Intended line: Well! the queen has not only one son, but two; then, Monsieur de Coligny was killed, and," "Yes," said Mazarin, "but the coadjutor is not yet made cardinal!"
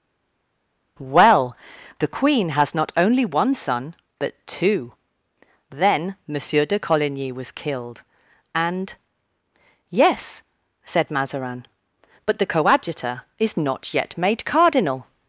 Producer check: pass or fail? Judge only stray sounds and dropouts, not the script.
pass